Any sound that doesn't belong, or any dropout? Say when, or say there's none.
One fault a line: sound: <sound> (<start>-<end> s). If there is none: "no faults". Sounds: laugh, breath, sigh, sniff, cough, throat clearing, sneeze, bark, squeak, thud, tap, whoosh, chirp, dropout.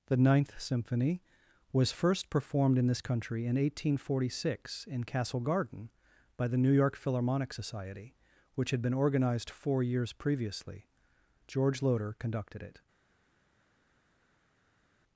no faults